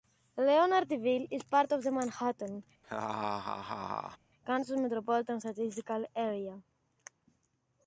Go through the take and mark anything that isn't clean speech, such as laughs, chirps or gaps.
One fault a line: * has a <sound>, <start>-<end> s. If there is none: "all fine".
* has a laugh, 2.8-4.2 s